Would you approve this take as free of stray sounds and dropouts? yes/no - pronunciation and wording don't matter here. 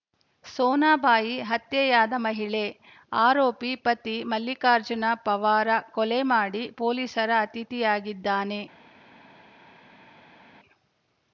yes